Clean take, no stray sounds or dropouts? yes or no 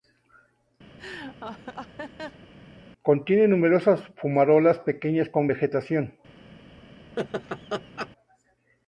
no